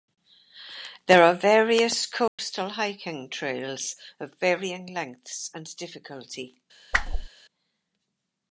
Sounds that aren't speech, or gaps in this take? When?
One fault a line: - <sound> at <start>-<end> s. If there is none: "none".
- dropout at 2.3-2.4 s
- whoosh at 6.9-7.3 s